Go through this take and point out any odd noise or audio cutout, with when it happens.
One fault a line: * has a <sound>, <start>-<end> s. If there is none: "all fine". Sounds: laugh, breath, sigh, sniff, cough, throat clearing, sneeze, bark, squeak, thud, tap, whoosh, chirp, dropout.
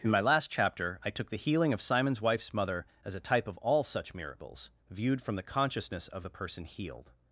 all fine